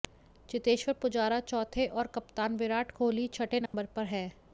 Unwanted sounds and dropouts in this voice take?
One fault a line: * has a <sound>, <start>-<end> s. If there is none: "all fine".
* has a dropout, 3.7-3.7 s